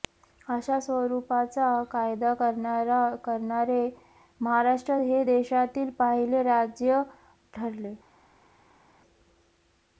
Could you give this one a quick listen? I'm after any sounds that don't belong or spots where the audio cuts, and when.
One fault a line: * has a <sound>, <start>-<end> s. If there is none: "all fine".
all fine